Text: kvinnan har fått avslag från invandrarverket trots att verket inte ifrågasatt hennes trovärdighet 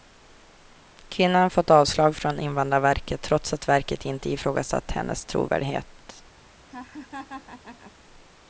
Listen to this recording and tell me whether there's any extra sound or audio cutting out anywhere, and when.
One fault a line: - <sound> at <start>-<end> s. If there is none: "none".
- laugh at 6.7-7.9 s